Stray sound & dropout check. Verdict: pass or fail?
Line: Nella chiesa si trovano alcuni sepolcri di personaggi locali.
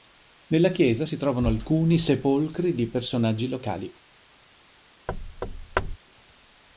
fail